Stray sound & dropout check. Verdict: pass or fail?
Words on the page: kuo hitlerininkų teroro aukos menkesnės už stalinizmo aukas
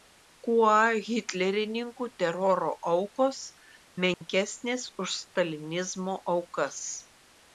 fail